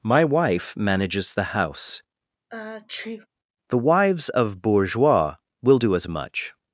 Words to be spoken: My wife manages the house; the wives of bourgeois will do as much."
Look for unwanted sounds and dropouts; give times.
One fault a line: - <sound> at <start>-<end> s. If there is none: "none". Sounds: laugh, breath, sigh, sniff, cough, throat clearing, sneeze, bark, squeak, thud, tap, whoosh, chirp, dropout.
- sneeze at 2.5-3.3 s